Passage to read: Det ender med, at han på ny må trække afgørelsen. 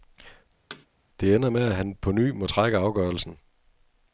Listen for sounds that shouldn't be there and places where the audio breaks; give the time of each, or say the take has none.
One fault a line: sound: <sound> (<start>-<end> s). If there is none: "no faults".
sound: thud (0.7-0.9 s)